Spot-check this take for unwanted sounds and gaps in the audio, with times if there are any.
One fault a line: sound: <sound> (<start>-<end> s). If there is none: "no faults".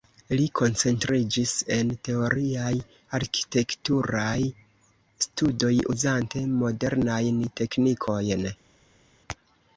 no faults